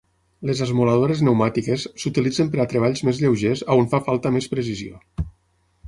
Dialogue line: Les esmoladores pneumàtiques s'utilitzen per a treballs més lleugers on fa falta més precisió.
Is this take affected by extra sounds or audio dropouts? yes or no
no